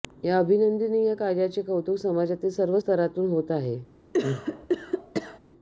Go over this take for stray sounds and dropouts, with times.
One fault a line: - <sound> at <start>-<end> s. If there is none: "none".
- cough at 4.1-5.4 s